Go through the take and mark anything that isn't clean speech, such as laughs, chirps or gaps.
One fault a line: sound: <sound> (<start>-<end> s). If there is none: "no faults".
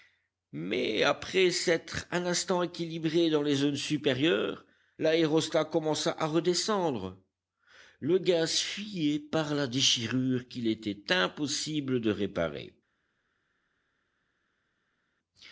no faults